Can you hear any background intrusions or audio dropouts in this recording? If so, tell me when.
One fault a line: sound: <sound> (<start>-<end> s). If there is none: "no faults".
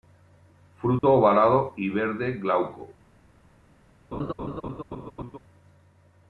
sound: dropout (1.0-1.0 s)
sound: laugh (4.1-5.4 s)